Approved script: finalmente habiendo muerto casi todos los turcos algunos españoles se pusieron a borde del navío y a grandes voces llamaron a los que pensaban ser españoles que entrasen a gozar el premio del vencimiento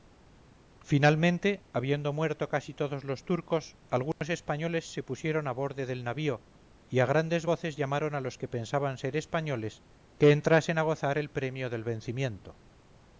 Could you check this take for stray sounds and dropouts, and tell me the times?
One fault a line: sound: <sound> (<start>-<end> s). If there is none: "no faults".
sound: dropout (4.1-4.2 s)